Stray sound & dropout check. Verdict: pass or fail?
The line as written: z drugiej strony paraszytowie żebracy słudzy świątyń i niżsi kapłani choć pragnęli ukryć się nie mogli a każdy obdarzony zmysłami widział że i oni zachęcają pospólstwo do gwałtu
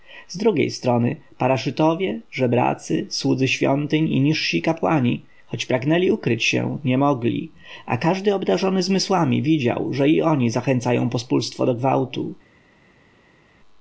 pass